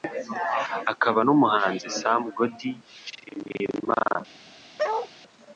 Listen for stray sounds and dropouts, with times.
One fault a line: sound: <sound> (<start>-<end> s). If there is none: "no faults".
sound: bark (4.8-5.1 s)